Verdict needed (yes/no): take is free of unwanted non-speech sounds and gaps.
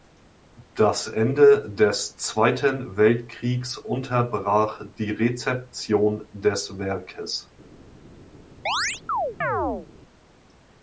no